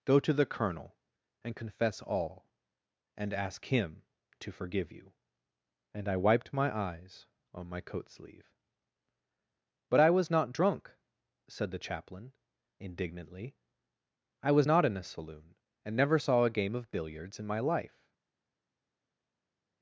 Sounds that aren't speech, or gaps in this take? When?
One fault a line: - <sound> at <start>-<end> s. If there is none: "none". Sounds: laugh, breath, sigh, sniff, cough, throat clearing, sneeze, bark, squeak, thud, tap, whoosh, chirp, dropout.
none